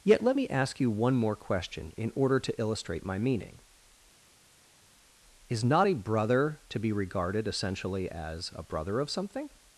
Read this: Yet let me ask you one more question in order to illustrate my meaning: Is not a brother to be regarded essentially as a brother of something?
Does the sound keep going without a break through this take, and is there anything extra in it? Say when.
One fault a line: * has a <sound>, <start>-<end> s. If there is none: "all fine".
all fine